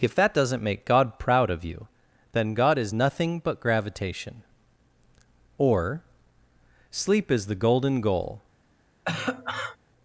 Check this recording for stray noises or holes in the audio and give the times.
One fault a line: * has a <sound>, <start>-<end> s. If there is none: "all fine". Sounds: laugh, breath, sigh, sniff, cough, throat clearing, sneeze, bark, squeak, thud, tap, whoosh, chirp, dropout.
* has a cough, 9.0-9.8 s